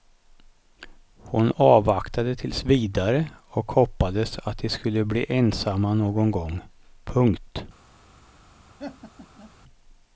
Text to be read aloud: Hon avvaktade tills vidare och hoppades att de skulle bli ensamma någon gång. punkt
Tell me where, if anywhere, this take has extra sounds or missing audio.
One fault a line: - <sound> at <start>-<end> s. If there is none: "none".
- laugh at 8.8-9.5 s